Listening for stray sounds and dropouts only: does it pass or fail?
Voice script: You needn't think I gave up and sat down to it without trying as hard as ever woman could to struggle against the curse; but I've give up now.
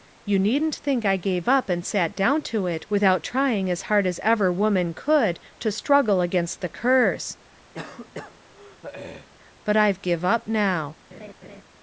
fail